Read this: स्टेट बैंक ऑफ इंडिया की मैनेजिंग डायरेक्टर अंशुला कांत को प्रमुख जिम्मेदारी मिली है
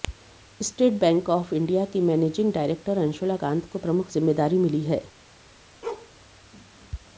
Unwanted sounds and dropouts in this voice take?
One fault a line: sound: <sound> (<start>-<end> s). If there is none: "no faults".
sound: bark (5.8-6.1 s)